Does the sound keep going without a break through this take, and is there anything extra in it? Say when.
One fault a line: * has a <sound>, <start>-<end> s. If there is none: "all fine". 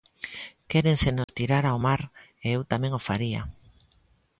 * has a dropout, 1.2-1.3 s